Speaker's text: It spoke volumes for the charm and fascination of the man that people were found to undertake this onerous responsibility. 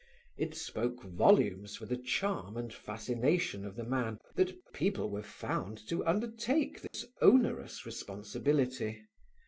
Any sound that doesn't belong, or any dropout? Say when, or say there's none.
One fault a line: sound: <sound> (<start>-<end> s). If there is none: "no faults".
sound: dropout (6.9-6.9 s)